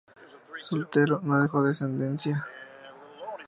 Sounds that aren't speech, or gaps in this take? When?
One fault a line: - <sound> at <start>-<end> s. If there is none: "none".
none